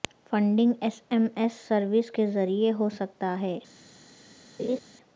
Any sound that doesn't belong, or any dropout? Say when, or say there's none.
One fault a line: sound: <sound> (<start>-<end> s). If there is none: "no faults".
sound: laugh (4.6-4.8 s)